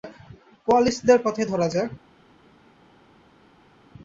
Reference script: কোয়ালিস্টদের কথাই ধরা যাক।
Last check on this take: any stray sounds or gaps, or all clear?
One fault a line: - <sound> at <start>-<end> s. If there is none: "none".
none